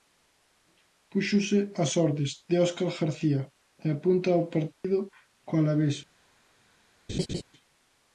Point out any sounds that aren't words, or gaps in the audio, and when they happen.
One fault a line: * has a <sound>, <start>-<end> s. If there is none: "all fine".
* has a dropout, 4.7-4.8 s
* has a laugh, 7.1-7.4 s